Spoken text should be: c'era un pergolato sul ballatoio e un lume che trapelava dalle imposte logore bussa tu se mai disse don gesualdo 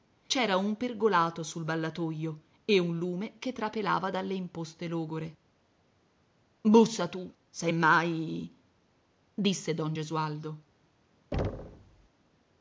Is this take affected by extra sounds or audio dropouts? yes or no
yes